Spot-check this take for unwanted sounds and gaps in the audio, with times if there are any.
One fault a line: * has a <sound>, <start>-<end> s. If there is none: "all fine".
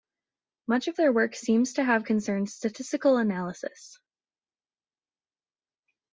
all fine